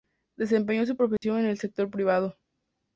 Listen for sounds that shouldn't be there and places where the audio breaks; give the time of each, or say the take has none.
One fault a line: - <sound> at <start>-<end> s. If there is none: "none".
- dropout at 1.2-1.2 s